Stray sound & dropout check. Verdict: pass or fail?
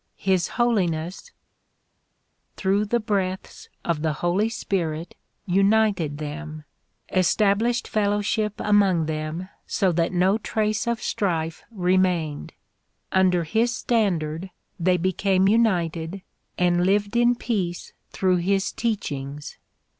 pass